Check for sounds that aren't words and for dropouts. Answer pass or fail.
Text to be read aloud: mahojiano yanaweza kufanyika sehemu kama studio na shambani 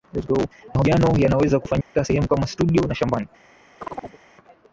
fail